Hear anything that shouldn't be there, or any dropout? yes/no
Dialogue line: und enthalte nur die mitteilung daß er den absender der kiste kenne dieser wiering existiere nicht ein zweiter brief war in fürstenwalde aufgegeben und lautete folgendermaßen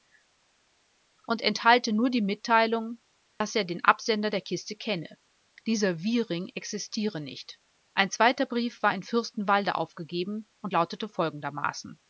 no